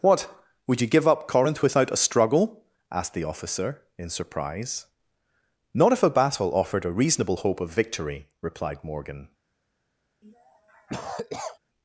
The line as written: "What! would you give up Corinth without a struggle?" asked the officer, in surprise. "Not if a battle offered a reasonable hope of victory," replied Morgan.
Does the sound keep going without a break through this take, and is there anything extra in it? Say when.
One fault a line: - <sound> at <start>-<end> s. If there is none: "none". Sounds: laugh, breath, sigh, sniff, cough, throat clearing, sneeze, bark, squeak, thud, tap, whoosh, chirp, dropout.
- cough at 10.2-11.6 s